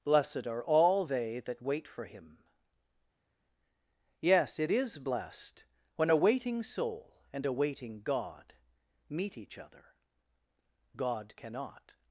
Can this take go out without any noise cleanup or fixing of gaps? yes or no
yes